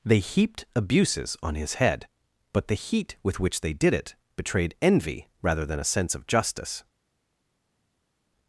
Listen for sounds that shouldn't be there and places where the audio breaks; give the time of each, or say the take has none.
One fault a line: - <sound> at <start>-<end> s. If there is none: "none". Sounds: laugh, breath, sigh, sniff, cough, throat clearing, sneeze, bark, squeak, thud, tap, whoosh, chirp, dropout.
none